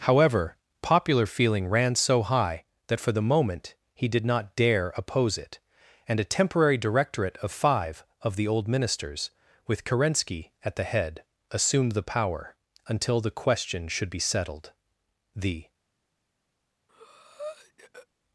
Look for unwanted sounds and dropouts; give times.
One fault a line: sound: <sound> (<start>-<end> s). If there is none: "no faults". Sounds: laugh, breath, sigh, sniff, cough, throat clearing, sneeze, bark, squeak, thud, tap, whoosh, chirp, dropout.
sound: breath (16.9-18.1 s)